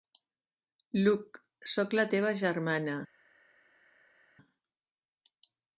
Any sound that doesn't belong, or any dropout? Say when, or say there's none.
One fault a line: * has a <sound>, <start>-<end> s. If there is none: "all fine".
all fine